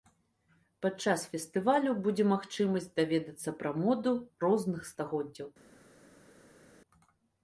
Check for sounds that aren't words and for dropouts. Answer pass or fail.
pass